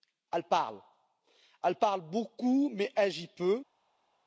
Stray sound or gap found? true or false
false